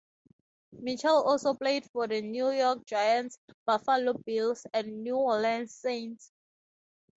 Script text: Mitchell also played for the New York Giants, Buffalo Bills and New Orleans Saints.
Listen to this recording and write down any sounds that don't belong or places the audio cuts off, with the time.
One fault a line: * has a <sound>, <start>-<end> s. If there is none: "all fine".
all fine